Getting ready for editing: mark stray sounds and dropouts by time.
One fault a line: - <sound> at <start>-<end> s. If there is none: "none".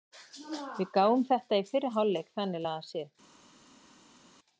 none